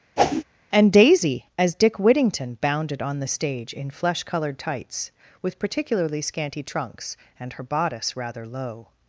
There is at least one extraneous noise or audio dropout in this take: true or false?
true